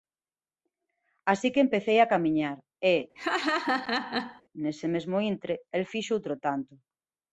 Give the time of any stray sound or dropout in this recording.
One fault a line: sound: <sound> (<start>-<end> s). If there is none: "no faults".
sound: laugh (3.2-4.4 s)